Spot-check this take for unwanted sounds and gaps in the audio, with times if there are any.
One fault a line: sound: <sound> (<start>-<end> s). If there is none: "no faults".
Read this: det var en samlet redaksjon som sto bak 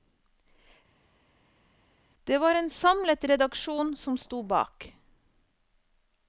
no faults